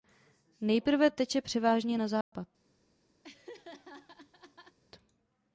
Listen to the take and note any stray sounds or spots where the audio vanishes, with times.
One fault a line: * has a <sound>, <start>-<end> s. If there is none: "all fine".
* has a dropout, 2.2-2.3 s
* has a laugh, 3.2-4.8 s